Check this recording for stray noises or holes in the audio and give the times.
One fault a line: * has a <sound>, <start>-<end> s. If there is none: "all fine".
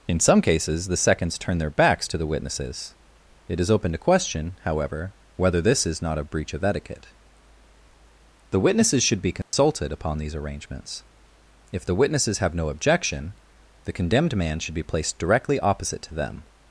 * has a dropout, 9.4-9.5 s